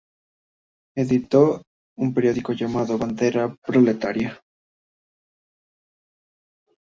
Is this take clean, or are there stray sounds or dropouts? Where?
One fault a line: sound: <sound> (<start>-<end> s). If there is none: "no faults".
no faults